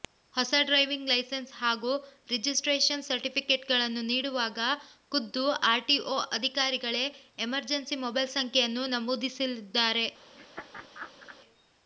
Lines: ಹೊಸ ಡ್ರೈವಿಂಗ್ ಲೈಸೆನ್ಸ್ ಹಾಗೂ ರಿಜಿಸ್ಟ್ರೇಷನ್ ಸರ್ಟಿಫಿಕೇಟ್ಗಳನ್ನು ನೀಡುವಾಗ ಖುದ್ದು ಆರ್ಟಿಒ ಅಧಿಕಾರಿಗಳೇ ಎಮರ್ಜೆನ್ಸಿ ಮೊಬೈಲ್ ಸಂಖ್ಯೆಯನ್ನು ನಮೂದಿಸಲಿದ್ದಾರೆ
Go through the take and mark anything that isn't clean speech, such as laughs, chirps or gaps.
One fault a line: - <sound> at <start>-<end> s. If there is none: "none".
- laugh at 10.3-11.4 s